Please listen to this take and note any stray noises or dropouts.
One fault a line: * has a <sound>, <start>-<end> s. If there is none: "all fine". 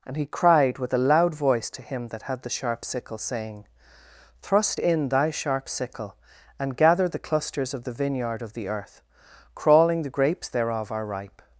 all fine